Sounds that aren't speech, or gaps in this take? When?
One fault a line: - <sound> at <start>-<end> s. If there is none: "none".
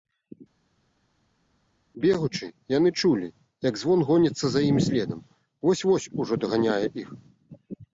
none